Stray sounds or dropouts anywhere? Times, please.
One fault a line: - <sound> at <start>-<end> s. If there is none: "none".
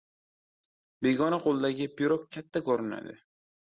none